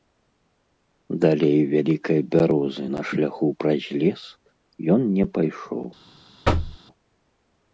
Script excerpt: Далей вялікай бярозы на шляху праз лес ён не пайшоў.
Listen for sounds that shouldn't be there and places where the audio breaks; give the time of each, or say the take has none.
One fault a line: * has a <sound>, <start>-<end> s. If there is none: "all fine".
* has a thud, 6.4-6.8 s